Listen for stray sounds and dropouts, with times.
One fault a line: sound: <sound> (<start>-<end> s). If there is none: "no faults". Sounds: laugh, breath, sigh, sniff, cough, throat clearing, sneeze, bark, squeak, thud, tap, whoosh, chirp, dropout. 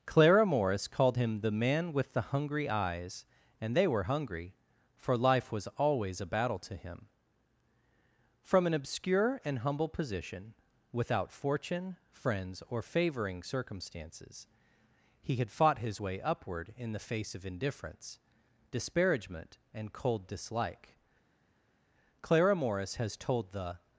no faults